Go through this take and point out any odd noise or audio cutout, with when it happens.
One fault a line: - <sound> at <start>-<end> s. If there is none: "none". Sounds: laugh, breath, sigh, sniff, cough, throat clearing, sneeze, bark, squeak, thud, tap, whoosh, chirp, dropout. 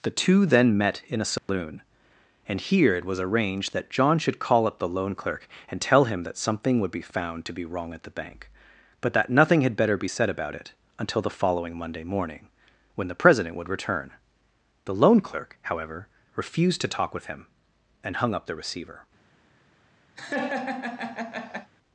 - dropout at 1.4-1.5 s
- laugh at 20.2-21.7 s